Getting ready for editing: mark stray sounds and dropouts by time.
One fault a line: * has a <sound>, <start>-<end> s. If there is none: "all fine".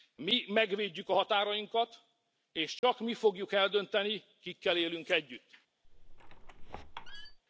* has a dropout, 2.8-2.8 s
* has a squeak, 5.8-7.4 s